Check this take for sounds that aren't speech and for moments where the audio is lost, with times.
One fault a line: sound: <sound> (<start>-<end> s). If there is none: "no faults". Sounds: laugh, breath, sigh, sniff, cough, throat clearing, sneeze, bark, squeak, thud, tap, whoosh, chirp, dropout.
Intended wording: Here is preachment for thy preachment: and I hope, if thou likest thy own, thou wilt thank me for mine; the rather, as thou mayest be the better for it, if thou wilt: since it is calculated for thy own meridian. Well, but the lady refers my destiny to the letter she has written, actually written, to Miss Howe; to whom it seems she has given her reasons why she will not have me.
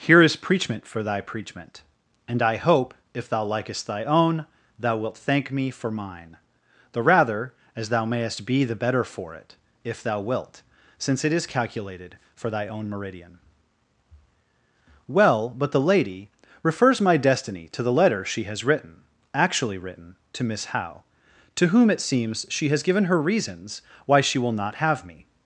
no faults